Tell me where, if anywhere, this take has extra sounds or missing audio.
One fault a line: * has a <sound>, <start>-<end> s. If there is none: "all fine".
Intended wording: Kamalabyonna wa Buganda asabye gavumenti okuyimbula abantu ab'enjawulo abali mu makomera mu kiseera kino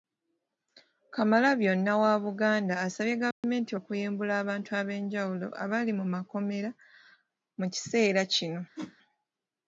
* has a dropout, 3.3-3.4 s
* has a whoosh, 8.8-9.0 s